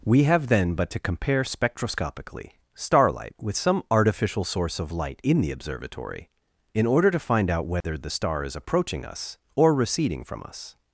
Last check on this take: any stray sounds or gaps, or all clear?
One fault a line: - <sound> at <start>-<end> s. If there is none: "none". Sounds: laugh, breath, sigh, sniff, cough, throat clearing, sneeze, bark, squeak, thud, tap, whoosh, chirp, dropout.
- dropout at 7.8-7.8 s